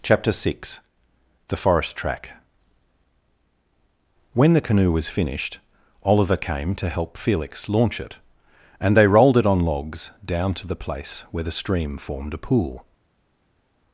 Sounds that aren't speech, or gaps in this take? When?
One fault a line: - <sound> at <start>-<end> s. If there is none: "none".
none